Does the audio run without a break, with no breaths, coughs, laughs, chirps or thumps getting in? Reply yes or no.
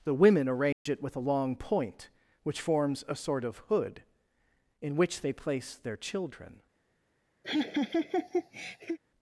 no